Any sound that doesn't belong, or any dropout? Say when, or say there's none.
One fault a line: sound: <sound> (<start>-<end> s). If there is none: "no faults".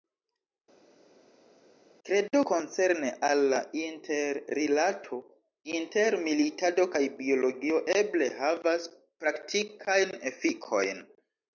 no faults